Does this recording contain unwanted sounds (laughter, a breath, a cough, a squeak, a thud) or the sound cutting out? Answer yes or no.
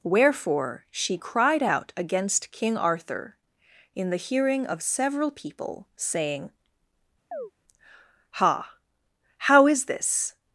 yes